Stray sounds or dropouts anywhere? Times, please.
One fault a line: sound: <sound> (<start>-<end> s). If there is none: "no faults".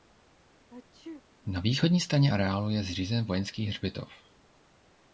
sound: sneeze (0.7-1.2 s)